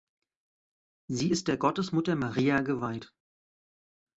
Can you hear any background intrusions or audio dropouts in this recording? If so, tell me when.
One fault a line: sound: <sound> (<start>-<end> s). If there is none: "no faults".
no faults